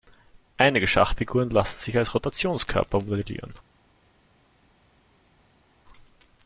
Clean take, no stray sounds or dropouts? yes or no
yes